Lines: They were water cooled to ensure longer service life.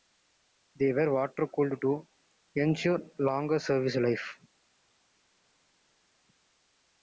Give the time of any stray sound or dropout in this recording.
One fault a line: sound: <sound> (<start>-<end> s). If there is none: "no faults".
no faults